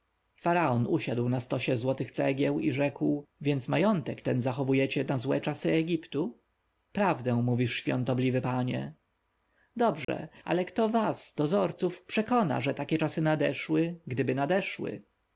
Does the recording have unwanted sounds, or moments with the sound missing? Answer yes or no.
yes